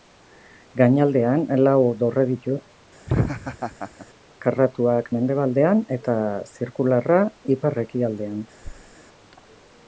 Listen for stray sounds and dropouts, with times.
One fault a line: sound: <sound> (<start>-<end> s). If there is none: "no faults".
sound: laugh (3.1-4.1 s)
sound: thud (8.6-9.0 s)